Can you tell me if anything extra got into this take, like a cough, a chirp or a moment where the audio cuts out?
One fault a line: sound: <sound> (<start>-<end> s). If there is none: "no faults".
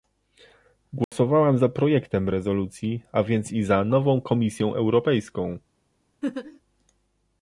sound: dropout (1.0-1.1 s)
sound: laugh (6.2-6.6 s)